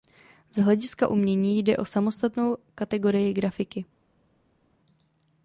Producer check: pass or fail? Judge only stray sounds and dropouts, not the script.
pass